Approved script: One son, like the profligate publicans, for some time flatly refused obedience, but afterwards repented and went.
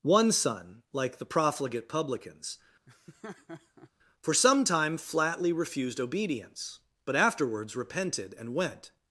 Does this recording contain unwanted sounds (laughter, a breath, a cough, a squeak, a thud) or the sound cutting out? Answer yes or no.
yes